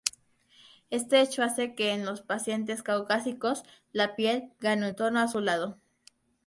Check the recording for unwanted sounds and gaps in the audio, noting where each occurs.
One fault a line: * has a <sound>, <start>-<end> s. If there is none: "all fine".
all fine